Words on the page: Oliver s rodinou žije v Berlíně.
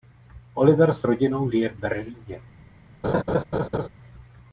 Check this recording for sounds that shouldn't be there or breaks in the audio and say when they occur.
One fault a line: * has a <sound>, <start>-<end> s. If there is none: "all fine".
* has a laugh, 3.0-3.9 s